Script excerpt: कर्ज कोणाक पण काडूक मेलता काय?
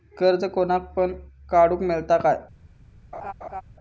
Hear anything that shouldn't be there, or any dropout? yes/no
yes